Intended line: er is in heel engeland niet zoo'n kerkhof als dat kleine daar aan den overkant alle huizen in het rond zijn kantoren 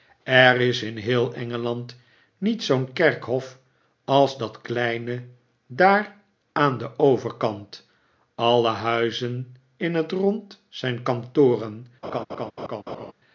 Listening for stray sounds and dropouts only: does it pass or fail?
fail